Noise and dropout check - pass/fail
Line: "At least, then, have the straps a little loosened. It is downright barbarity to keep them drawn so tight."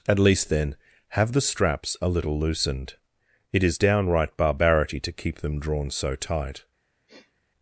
fail